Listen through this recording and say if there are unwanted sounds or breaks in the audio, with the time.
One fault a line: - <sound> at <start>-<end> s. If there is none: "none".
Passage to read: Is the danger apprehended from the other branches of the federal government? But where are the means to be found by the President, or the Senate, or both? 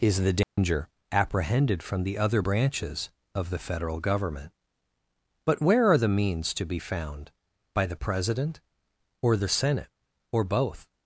- dropout at 0.4-0.6 s